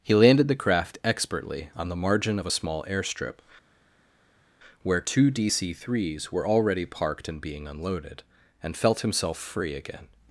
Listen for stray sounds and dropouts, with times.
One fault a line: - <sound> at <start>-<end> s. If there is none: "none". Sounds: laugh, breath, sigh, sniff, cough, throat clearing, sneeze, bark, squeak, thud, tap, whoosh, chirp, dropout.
none